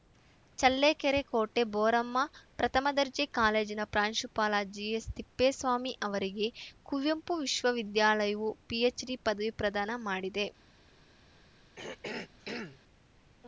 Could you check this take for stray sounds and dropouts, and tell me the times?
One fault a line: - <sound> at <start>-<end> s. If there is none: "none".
- throat clearing at 11.8-12.8 s